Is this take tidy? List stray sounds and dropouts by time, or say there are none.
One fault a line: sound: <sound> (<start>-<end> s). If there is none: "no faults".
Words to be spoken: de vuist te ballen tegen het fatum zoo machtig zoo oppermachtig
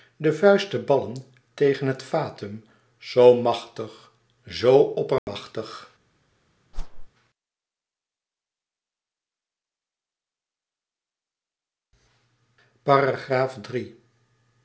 sound: dropout (5.2-5.3 s)
sound: whoosh (6.7-7.1 s)